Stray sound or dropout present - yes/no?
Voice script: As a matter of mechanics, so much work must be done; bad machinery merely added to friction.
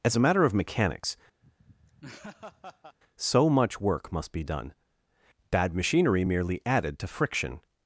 yes